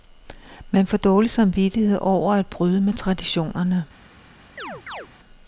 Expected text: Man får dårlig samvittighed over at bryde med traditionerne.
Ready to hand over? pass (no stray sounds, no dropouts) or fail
fail